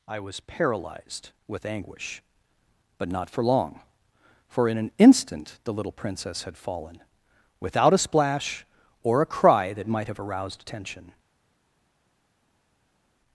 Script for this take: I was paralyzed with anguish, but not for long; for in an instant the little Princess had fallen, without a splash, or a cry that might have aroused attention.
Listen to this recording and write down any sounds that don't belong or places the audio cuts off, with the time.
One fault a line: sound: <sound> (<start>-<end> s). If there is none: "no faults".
no faults